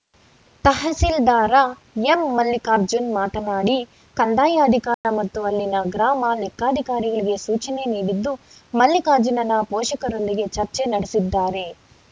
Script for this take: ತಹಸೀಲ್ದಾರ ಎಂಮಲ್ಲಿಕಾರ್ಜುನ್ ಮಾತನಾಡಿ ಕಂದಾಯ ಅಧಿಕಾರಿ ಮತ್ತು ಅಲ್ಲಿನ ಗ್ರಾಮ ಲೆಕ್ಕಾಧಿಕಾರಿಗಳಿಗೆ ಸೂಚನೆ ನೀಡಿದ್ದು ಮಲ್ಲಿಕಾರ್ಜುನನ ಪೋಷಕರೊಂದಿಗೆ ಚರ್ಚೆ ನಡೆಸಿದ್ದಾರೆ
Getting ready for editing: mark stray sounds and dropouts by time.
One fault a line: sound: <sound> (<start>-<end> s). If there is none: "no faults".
sound: dropout (4.9-5.0 s)